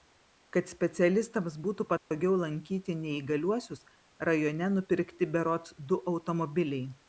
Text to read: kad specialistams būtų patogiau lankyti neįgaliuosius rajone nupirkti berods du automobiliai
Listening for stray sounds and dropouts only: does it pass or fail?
fail